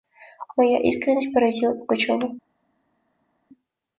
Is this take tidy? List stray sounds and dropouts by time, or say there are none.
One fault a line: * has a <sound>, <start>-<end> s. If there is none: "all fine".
all fine